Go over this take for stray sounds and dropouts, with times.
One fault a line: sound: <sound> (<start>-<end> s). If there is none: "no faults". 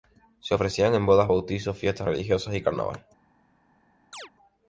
sound: chirp (4.1-4.3 s)